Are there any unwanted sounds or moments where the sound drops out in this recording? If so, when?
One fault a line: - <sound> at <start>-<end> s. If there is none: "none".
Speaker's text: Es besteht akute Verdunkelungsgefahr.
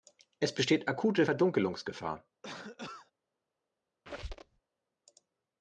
- cough at 2.4-3.1 s
- squeak at 4.1-4.6 s